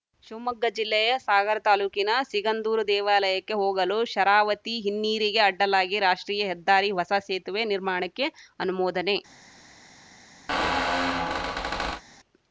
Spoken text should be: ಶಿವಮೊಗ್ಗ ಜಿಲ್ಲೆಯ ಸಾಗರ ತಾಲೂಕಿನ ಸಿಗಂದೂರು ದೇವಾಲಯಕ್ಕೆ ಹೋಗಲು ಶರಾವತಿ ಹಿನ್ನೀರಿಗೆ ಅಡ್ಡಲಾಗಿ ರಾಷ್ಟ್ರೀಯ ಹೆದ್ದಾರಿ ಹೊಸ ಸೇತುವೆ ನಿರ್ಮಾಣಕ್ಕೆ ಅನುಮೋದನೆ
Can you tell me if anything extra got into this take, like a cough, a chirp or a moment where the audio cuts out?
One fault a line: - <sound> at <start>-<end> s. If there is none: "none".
- squeak at 10.5-12.0 s